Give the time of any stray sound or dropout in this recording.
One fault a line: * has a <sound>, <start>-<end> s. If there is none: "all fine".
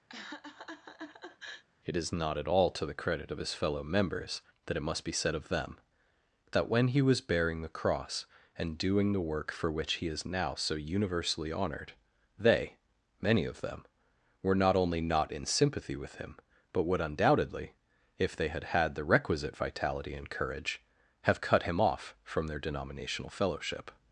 * has a laugh, 0.1-1.6 s